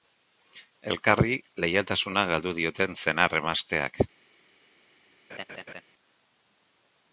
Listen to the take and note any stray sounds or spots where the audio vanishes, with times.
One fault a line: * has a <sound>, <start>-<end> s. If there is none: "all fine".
* has a laugh, 5.3-5.8 s